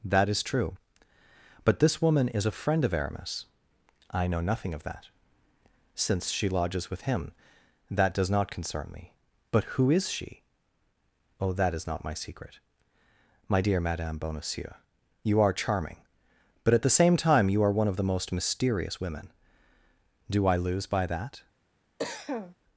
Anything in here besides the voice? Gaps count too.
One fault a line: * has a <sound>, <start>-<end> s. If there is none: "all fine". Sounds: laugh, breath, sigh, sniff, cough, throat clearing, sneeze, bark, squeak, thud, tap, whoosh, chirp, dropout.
* has a cough, 22.0-22.6 s